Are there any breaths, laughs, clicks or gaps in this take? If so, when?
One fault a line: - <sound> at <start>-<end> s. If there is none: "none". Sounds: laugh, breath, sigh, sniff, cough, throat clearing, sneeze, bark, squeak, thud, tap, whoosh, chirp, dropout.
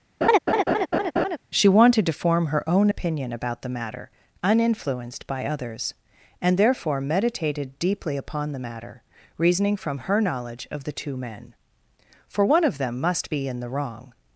- laugh at 0.2-1.4 s